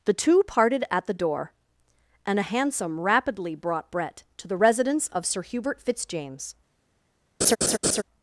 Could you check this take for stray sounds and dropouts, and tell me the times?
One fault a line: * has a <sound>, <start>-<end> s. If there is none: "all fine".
* has a laugh, 7.4-8.0 s